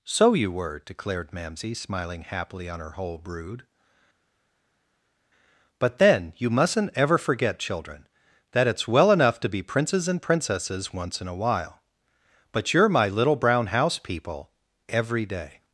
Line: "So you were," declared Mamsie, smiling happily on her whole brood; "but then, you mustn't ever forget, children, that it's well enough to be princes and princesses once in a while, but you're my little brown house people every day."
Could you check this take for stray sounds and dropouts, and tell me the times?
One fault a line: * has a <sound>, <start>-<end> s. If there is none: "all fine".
all fine